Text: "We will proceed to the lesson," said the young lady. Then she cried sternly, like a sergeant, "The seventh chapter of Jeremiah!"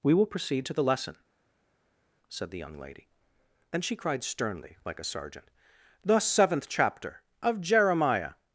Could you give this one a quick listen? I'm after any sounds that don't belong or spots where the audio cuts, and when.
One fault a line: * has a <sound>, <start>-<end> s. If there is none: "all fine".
all fine